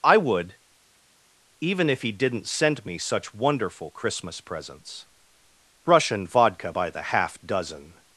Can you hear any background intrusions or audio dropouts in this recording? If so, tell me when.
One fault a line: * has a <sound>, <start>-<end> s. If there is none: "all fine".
all fine